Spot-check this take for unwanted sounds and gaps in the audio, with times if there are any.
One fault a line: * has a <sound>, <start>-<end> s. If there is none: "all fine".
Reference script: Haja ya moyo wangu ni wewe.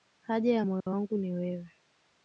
* has a dropout, 0.8-0.9 s